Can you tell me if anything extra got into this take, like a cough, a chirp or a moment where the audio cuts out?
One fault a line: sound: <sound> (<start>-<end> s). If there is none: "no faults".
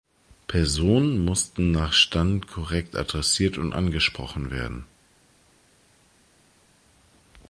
no faults